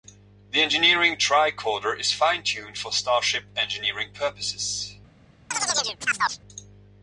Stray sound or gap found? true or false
true